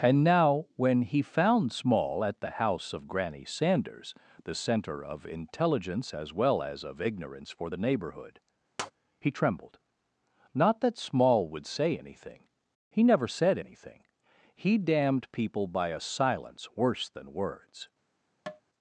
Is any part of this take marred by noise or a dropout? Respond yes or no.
yes